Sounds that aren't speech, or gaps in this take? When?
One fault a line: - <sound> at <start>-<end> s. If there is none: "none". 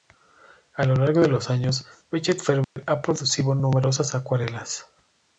- dropout at 2.6-2.8 s